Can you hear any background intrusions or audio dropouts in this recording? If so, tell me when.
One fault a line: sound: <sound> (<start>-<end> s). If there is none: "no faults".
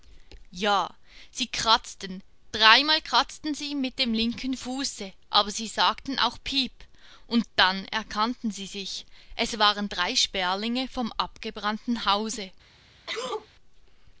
sound: sneeze (13.1-13.5 s)